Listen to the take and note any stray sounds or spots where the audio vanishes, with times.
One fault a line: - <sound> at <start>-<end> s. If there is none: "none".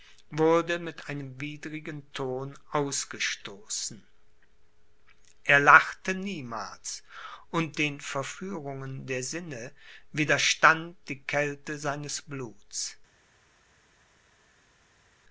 none